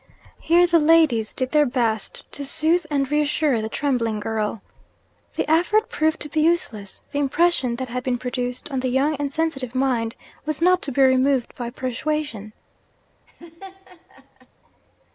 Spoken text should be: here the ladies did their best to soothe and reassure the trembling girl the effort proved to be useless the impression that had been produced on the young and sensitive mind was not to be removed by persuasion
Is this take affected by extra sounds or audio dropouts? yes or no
yes